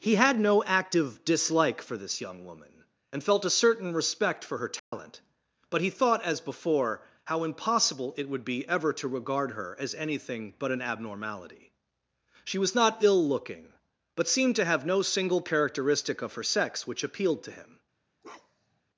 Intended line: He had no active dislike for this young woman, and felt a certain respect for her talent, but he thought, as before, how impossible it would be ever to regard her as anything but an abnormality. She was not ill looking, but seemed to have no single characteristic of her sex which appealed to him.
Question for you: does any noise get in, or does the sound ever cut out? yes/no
yes